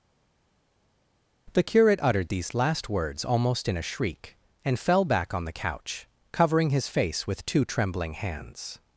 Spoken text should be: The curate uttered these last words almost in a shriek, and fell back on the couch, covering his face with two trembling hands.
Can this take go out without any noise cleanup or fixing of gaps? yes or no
yes